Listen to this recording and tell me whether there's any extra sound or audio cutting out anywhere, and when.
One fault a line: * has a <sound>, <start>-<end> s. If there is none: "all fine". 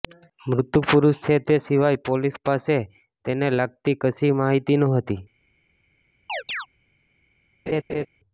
* has a chirp, 6.3-6.7 s
* has a laugh, 7.7-8.1 s